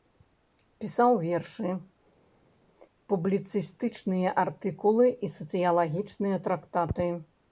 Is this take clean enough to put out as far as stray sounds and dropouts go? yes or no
yes